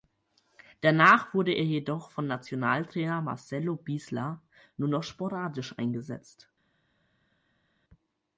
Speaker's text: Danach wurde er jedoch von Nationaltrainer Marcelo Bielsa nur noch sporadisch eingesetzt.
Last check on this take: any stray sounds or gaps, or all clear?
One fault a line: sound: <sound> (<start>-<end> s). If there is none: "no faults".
no faults